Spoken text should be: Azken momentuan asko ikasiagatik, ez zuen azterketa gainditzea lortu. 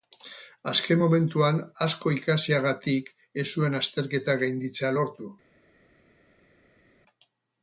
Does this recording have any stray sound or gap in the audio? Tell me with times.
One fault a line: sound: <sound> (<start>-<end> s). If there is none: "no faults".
no faults